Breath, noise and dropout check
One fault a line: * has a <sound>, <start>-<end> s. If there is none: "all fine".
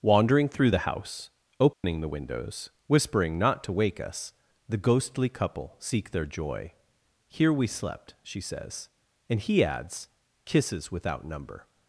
* has a dropout, 1.7-1.8 s